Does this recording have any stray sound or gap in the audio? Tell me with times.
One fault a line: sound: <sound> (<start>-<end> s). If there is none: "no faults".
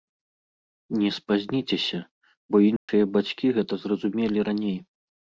sound: dropout (2.8-2.9 s)